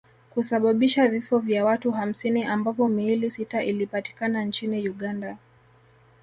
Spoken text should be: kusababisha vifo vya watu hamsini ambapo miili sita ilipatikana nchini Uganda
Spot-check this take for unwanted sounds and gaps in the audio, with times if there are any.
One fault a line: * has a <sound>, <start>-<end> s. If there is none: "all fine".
all fine